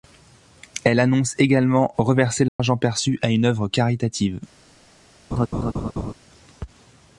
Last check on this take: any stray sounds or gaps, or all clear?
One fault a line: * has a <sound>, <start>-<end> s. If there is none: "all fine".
* has a dropout, 2.5-2.6 s
* has a laugh, 5.3-6.1 s